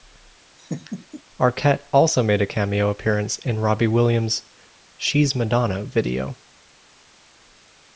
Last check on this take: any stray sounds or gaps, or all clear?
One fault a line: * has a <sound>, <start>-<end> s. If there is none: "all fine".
* has a laugh, 0.6-1.2 s